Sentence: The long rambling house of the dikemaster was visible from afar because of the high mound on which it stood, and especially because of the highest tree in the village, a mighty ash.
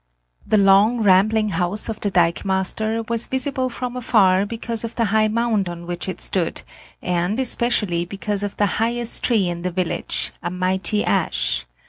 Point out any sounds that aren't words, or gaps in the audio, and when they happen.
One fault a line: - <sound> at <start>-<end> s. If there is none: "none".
none